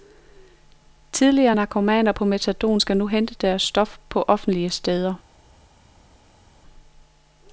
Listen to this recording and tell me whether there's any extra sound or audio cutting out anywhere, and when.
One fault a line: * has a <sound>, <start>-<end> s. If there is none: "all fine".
all fine